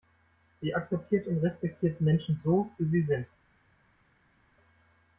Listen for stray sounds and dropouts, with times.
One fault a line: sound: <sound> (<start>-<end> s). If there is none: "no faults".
no faults